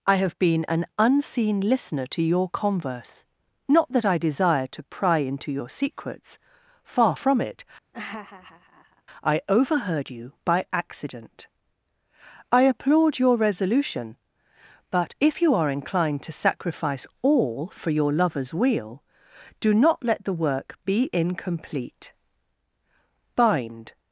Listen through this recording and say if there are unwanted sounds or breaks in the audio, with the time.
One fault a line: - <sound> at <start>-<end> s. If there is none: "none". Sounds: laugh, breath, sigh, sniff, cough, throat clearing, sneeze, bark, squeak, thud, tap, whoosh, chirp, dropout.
- laugh at 7.9-9.0 s